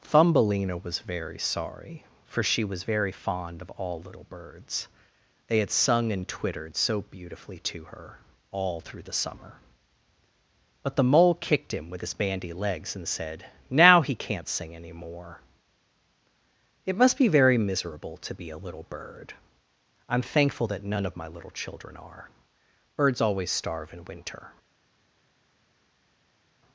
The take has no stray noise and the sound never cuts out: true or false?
true